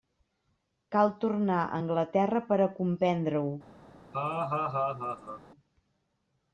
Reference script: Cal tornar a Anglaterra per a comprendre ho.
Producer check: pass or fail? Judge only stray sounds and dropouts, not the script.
fail